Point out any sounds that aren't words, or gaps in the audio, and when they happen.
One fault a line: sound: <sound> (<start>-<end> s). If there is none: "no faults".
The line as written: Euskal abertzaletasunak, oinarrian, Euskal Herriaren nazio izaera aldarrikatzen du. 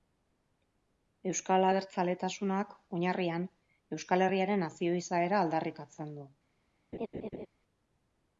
sound: laugh (6.9-7.5 s)